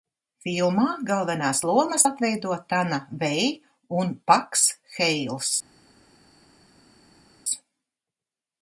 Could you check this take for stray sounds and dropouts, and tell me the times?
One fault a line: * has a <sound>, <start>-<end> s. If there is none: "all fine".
all fine